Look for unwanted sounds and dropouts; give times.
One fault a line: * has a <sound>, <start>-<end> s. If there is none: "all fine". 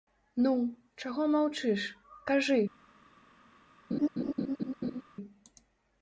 * has a laugh, 3.9-5.0 s